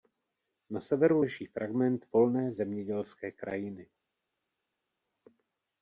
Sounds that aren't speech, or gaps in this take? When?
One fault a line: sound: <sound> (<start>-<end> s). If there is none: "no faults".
no faults